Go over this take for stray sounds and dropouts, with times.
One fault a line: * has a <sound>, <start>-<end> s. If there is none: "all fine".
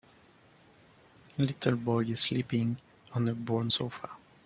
all fine